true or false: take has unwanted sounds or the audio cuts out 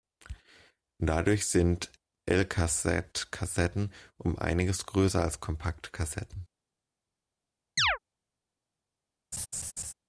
true